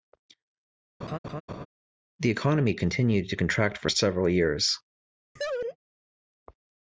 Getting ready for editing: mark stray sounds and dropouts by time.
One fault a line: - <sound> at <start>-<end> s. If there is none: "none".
- laugh at 1.0-1.7 s
- laugh at 5.4-5.8 s